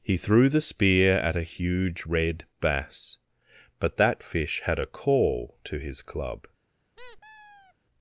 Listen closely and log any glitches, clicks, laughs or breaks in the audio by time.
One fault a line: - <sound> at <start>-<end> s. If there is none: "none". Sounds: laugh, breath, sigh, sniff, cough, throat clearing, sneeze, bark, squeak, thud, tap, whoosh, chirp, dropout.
- squeak at 7.0-7.7 s